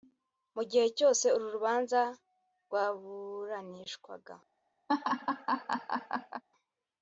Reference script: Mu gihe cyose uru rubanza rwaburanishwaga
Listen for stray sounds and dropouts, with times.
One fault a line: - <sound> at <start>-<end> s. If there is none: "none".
- laugh at 4.9-6.4 s